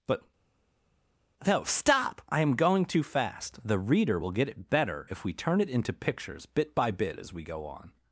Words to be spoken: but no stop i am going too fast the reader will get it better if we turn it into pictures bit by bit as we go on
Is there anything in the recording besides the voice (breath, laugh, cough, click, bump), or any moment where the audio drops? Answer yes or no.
no